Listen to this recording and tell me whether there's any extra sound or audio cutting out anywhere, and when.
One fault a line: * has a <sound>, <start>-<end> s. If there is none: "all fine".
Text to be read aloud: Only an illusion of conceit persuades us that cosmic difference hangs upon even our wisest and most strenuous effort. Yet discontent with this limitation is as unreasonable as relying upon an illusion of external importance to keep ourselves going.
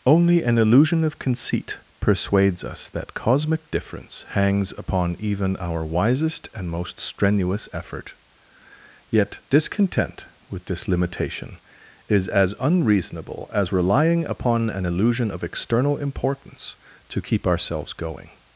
all fine